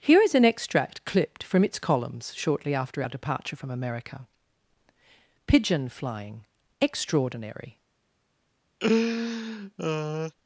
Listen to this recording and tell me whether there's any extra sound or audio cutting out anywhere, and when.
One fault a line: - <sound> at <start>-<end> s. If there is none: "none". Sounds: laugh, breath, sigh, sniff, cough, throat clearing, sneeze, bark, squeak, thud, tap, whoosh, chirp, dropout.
- laugh at 8.8-10.3 s